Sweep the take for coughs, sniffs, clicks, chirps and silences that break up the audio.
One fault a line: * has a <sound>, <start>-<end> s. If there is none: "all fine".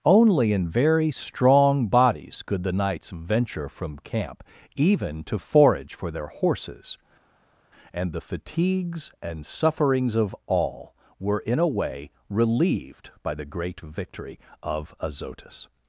all fine